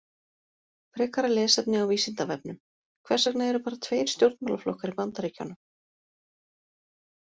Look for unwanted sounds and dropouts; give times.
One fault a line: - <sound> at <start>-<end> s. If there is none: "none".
none